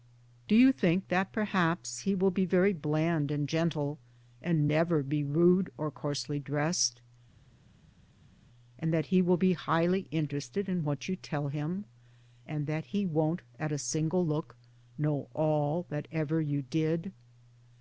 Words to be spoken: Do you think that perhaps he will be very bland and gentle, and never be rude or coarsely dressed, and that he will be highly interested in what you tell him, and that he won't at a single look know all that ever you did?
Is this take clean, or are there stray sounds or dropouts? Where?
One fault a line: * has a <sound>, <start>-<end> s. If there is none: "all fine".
all fine